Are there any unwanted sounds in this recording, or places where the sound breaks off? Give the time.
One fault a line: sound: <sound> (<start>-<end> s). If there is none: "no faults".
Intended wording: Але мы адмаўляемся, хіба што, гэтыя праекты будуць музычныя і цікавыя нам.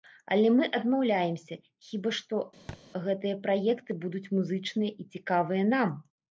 sound: thud (2.7-2.8 s)